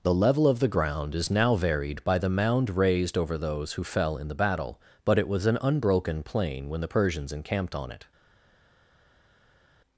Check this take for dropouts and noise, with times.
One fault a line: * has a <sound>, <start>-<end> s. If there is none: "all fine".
all fine